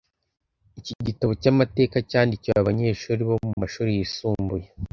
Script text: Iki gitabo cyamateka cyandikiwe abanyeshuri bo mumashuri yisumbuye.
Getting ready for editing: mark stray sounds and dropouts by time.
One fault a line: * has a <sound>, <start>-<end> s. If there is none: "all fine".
* has a dropout, 3.5-3.6 s